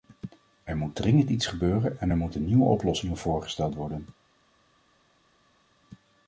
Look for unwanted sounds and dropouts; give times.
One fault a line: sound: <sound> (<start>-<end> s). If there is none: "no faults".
no faults